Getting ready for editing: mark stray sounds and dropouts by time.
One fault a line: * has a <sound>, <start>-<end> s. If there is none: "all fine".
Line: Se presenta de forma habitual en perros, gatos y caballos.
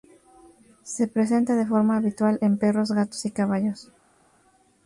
all fine